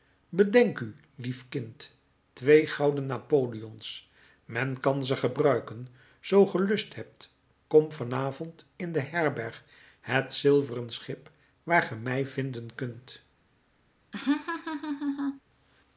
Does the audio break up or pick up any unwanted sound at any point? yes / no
yes